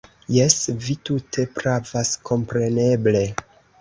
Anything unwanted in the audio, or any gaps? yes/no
no